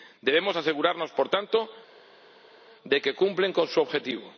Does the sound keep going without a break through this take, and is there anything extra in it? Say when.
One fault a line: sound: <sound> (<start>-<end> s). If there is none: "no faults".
no faults